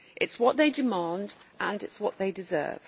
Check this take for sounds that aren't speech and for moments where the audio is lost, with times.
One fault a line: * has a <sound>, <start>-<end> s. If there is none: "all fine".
all fine